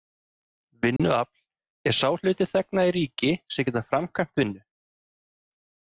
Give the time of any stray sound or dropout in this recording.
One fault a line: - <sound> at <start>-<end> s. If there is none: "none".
- dropout at 1.0-1.0 s